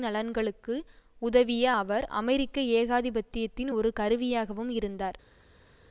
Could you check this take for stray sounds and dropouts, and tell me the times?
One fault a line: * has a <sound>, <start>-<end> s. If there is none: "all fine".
all fine